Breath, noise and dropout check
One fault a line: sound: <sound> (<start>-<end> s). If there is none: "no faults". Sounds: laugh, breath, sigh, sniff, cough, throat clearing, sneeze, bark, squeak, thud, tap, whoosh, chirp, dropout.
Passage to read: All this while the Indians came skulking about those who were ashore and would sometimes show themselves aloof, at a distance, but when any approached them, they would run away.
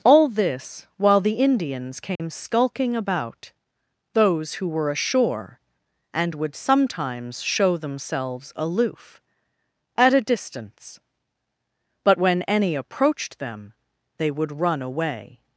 sound: dropout (2.1-2.2 s)